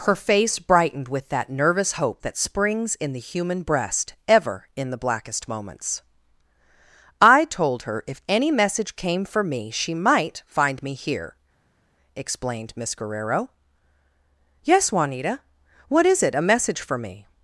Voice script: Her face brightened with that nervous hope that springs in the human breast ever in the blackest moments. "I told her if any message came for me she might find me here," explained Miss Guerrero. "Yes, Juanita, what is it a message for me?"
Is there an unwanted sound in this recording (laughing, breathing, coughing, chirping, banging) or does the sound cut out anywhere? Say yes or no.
no